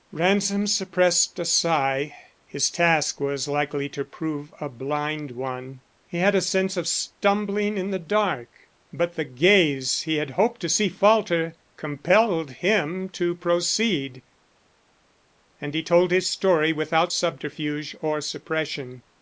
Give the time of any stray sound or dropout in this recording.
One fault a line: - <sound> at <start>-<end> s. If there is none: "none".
none